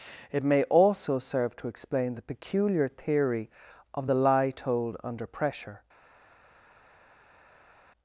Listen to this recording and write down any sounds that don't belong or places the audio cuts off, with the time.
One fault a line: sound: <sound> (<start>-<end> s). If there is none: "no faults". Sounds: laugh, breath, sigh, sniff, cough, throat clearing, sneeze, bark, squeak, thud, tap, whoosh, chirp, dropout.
no faults